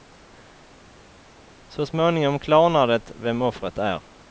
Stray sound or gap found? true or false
false